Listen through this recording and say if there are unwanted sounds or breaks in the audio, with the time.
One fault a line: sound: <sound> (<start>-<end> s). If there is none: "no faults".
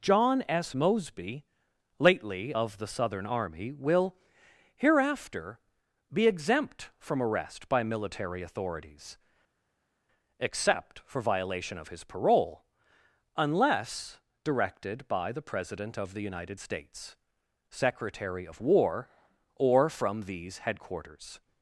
no faults